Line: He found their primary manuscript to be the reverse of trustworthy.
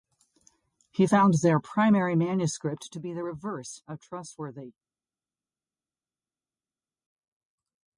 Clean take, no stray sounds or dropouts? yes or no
yes